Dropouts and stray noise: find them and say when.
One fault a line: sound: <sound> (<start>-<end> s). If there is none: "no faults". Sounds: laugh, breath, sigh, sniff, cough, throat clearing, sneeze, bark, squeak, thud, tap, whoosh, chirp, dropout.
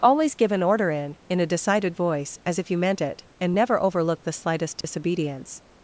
sound: dropout (4.8-4.8 s)